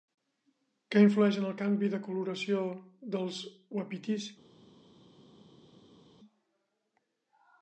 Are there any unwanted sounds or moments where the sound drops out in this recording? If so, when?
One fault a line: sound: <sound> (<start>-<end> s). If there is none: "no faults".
no faults